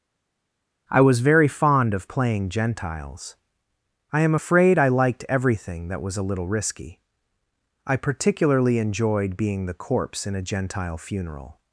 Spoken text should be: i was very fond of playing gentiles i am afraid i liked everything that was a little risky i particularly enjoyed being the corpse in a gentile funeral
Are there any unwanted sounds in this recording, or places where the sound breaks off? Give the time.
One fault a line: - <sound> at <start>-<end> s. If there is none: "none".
none